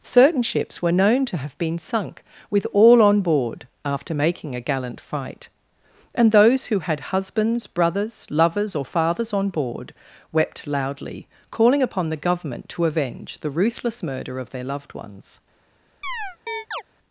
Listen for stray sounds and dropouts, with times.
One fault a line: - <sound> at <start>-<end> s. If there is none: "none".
- chirp at 16.0-16.8 s